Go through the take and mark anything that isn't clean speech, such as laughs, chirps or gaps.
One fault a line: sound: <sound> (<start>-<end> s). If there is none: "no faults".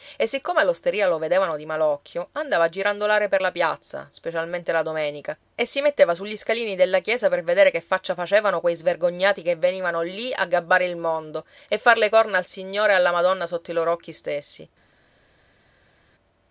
no faults